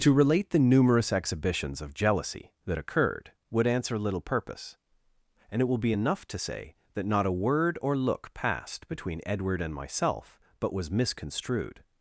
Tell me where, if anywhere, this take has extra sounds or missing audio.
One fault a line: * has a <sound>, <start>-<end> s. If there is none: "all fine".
all fine